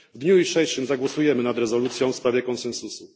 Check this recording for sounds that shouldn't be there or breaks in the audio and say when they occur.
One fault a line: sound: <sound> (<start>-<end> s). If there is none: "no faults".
no faults